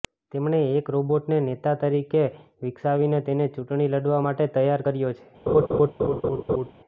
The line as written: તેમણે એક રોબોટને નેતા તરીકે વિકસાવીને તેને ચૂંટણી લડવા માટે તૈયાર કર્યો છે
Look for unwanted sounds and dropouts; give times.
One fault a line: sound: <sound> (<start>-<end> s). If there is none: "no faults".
sound: laugh (5.5-6.7 s)